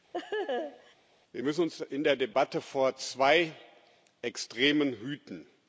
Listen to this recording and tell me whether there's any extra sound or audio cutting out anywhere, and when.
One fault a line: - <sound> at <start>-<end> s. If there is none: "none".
- laugh at 0.1-0.9 s